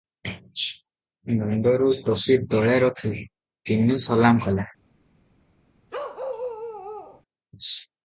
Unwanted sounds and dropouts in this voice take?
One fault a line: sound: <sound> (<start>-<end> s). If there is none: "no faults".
sound: bark (5.9-7.2 s)